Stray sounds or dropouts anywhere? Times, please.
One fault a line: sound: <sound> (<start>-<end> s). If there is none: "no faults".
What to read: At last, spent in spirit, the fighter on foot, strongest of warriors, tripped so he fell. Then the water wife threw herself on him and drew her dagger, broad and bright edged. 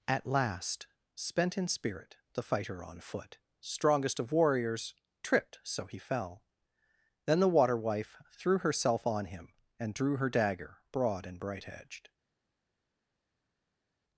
no faults